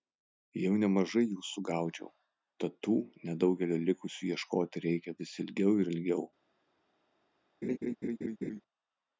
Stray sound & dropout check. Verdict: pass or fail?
fail